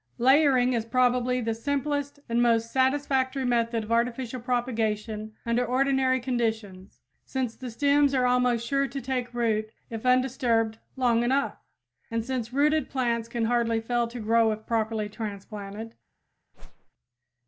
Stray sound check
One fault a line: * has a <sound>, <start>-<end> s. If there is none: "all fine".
* has a whoosh, 16.5-16.9 s